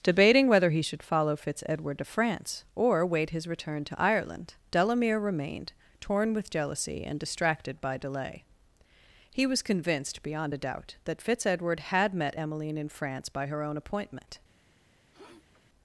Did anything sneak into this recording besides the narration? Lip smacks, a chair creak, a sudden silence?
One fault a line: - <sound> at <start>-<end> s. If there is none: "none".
- sniff at 15.1-15.6 s